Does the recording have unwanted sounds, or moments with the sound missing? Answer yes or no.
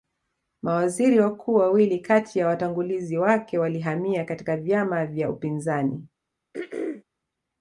yes